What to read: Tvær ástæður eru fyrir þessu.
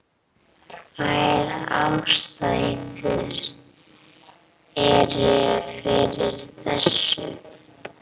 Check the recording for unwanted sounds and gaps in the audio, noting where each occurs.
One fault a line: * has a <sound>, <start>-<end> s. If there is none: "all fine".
all fine